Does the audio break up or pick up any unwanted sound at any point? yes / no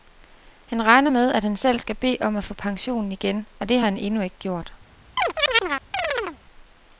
yes